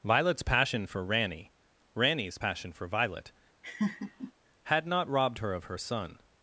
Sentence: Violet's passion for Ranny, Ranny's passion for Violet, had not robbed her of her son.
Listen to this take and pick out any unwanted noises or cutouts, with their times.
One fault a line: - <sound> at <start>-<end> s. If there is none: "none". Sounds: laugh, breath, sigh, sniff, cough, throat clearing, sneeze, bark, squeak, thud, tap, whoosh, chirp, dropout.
- laugh at 3.6-4.3 s